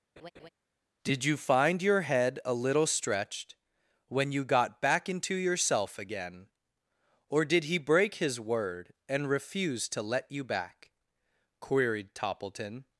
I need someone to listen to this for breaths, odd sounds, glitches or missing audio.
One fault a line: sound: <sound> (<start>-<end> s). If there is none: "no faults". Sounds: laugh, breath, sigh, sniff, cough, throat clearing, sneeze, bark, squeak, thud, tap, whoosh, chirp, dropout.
sound: laugh (0.2-0.5 s)